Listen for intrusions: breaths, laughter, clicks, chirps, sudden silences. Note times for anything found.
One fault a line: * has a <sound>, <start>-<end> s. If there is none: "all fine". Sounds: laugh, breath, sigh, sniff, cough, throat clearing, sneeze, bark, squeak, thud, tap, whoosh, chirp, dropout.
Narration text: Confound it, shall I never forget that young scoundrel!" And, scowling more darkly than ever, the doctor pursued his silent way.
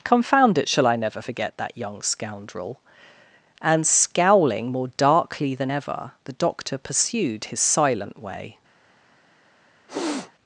* has a sniff, 9.9-10.3 s